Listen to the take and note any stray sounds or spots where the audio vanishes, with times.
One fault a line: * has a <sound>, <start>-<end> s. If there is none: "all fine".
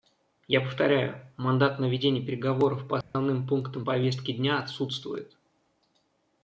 * has a dropout, 3.0-3.1 s